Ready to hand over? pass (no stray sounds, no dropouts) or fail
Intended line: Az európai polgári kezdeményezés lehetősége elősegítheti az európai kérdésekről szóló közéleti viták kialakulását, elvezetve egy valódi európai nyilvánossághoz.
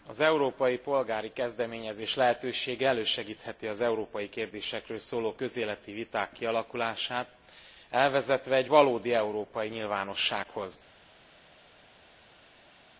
pass